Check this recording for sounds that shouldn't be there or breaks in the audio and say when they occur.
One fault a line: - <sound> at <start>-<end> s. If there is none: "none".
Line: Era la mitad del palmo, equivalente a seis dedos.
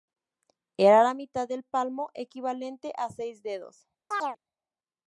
- chirp at 4.1-4.4 s